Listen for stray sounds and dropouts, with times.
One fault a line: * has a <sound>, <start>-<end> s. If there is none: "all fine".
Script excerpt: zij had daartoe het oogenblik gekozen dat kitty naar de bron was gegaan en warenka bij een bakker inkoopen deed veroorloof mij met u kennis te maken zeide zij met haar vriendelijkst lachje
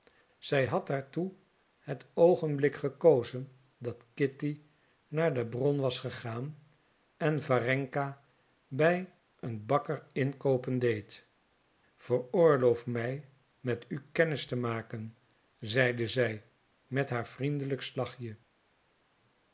all fine